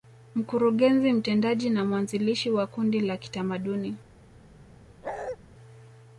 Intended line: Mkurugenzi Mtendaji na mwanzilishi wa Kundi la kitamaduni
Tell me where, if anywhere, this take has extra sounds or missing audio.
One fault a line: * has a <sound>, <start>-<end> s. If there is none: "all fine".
* has a bark, 5.0-5.4 s